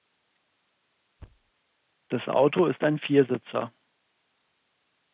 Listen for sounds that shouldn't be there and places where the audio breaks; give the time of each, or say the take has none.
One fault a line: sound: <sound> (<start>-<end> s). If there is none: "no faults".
sound: thud (1.2-1.5 s)